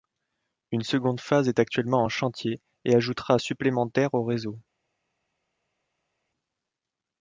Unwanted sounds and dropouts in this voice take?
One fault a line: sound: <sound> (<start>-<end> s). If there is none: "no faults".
no faults